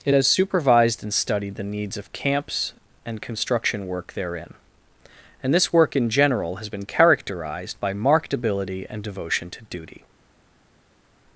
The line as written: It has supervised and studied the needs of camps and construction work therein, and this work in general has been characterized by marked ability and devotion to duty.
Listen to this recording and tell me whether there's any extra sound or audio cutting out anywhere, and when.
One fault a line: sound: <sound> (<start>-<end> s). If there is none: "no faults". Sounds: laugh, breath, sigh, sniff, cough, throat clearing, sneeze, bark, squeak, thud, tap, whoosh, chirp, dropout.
no faults